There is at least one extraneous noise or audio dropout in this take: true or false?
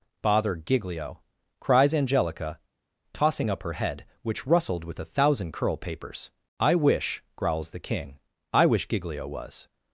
false